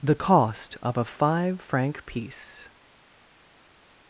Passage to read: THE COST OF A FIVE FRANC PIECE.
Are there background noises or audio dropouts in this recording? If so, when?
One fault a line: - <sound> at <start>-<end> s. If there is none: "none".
none